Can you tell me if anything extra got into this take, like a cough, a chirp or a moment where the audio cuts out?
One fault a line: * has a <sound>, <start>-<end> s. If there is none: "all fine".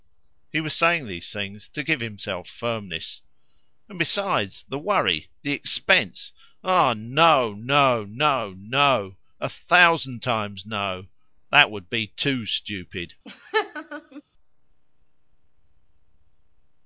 * has a laugh, 13.2-14.2 s